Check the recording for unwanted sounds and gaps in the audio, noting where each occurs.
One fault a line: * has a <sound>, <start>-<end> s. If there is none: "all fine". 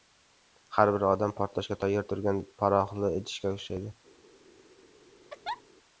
* has a laugh, 5.3-5.6 s